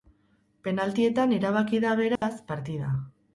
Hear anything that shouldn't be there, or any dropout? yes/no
yes